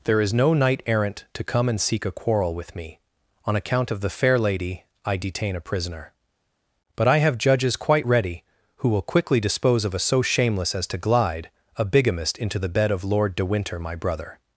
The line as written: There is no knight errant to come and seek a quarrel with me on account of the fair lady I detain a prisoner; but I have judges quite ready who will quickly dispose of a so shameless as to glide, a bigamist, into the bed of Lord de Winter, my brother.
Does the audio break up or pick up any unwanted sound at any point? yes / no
no